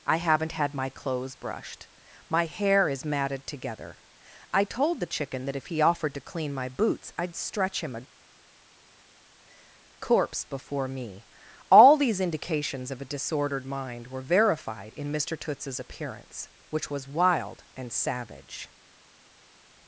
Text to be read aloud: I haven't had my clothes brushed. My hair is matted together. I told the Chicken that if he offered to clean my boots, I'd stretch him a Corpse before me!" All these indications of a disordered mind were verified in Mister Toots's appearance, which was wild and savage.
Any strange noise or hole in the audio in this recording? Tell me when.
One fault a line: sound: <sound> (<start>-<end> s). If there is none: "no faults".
no faults